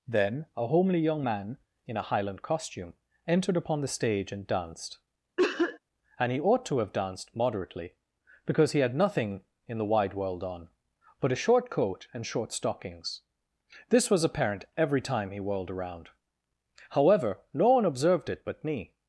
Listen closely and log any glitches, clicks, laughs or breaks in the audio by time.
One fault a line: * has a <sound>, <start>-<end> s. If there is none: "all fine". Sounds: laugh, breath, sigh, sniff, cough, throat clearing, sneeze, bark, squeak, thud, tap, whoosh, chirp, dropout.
* has a cough, 5.4-5.8 s